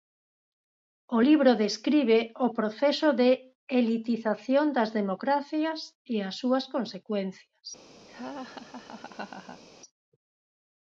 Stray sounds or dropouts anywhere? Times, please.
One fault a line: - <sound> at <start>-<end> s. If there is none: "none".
- laugh at 8.1-9.6 s